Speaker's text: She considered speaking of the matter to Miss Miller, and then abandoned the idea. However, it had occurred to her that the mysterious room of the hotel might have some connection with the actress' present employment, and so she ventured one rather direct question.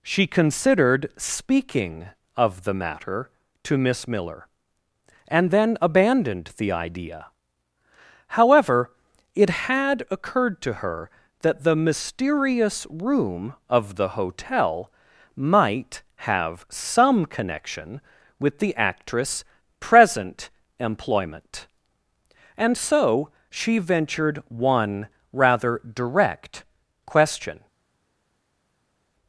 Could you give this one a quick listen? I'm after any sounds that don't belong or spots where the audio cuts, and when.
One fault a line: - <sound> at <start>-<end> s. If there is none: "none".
none